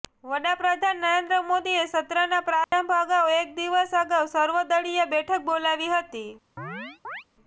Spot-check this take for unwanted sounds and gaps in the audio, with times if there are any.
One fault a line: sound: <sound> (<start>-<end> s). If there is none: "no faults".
sound: dropout (2.6-2.7 s)
sound: chirp (6.6-7.2 s)